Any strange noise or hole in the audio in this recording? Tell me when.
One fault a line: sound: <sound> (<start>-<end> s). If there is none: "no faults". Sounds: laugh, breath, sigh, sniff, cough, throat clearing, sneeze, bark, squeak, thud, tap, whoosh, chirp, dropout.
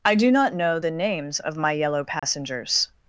sound: dropout (2.2-2.2 s)